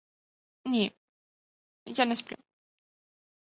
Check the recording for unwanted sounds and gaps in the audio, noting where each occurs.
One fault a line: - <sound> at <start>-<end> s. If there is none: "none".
none